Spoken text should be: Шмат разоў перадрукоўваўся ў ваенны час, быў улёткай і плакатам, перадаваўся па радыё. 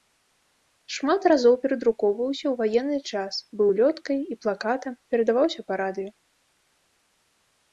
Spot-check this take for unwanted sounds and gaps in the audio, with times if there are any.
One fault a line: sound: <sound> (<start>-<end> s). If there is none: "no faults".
no faults